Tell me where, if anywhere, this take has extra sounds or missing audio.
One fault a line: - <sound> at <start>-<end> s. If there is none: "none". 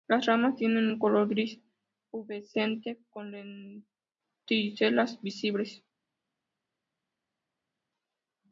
none